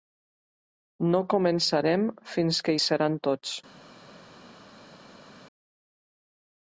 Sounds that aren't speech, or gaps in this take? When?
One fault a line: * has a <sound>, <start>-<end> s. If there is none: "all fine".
all fine